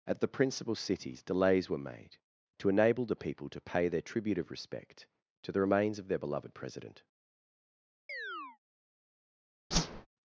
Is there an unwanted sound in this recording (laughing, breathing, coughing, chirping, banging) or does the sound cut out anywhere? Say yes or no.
yes